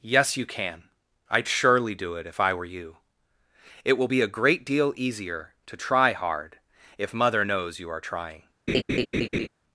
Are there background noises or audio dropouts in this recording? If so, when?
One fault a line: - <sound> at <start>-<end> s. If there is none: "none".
- laugh at 8.7-9.5 s